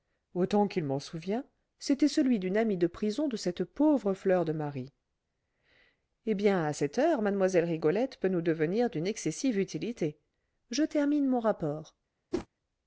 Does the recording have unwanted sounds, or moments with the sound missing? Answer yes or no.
yes